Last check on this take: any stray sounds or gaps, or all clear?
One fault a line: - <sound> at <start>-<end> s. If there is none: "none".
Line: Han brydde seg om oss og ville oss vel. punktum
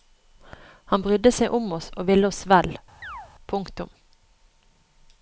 - chirp at 3.0-3.3 s